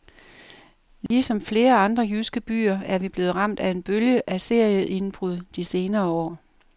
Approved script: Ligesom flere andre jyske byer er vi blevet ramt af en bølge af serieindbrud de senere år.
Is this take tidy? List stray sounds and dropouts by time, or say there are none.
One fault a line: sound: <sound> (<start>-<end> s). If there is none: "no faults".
sound: dropout (1.1-1.1 s)